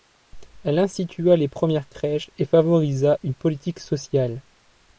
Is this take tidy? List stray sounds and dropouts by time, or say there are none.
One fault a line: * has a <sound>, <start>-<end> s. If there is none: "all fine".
all fine